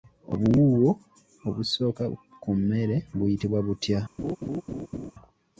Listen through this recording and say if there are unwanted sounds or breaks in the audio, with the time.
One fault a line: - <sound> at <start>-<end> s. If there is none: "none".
- laugh at 4.2-5.1 s